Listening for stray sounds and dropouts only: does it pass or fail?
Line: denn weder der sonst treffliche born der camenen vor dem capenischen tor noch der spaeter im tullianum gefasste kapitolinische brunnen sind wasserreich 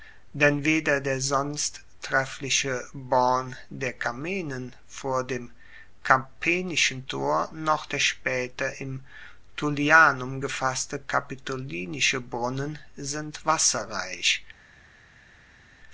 pass